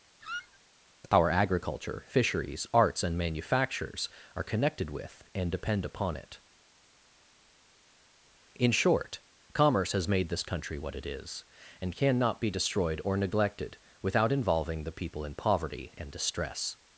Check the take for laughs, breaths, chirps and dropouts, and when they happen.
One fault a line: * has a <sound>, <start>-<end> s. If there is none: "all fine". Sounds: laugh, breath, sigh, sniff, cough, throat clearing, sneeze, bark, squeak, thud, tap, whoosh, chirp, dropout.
* has a squeak, 0.2-0.6 s